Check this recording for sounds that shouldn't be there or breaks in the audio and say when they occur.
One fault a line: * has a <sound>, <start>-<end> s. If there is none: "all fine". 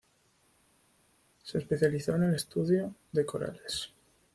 all fine